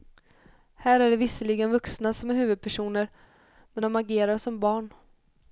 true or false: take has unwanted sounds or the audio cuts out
false